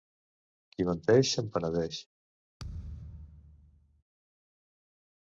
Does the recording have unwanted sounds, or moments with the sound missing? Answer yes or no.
yes